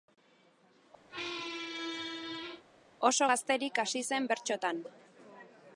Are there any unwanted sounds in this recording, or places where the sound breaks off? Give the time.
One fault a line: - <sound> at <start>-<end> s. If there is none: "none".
- squeak at 1.1-2.6 s